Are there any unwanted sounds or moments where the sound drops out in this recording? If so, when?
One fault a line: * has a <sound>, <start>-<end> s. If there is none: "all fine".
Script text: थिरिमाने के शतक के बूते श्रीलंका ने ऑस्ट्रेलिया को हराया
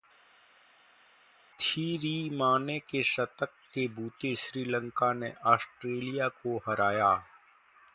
all fine